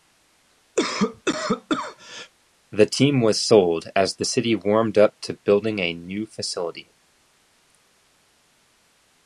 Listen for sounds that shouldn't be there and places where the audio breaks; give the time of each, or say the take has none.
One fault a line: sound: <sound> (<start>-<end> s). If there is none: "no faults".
sound: cough (0.8-2.3 s)